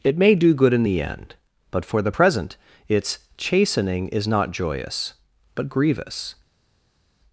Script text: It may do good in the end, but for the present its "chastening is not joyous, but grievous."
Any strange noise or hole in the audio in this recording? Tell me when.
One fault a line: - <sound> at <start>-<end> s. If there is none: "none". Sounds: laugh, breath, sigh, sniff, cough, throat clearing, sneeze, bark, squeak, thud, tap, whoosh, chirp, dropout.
none